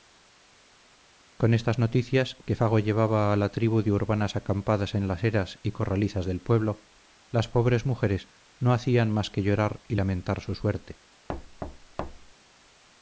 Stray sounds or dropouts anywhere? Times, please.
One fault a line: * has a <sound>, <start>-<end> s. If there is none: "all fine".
* has a thud, 11.3-12.3 s